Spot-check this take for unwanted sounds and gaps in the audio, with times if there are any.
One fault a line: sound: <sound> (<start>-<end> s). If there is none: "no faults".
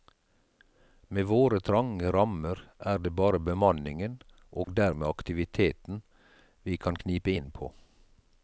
sound: dropout (4.6-4.7 s)